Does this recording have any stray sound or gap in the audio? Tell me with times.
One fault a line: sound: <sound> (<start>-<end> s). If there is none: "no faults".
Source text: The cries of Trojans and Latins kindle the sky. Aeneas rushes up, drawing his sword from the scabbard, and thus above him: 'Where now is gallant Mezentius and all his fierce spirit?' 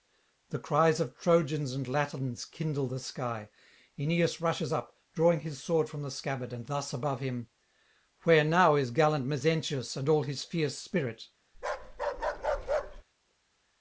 sound: bark (11.5-13.0 s)